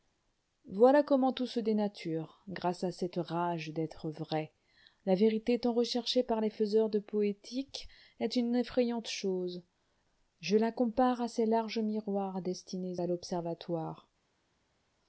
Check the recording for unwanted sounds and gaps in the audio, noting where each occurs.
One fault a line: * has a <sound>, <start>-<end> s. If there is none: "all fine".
all fine